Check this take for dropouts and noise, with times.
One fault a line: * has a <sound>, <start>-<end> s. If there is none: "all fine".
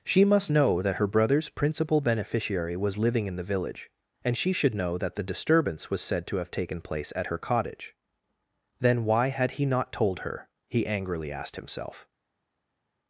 all fine